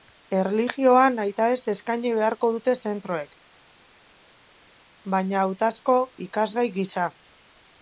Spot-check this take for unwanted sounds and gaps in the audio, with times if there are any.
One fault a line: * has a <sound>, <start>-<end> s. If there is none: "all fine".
all fine